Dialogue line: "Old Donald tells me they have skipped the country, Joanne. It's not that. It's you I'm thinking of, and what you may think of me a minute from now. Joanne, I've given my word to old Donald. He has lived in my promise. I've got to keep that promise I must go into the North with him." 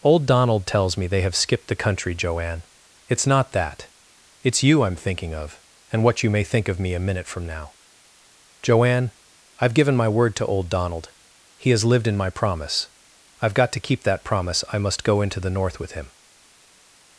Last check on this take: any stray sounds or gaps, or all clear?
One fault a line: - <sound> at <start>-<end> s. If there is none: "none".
none